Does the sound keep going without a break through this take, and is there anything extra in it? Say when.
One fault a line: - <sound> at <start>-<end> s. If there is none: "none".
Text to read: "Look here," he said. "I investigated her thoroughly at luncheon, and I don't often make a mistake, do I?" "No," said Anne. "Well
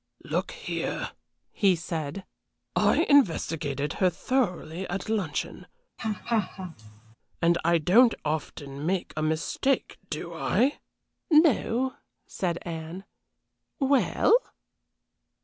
- laugh at 6.0-7.2 s